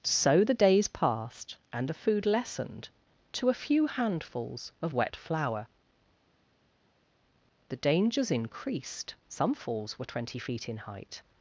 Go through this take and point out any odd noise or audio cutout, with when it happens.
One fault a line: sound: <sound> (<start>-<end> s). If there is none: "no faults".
no faults